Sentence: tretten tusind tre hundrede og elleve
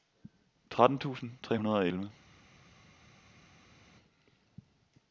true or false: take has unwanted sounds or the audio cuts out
false